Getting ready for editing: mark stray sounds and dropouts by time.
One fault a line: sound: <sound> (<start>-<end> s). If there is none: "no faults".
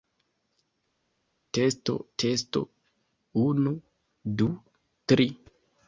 no faults